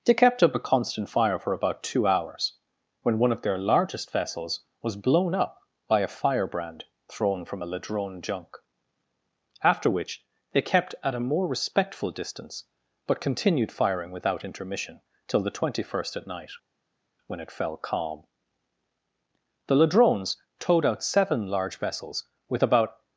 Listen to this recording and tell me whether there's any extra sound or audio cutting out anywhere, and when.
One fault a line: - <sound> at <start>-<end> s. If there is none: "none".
none